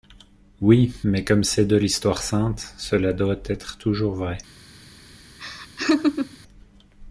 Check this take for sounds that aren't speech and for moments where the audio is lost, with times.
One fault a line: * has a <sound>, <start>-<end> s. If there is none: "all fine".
* has a laugh, 5.4-6.4 s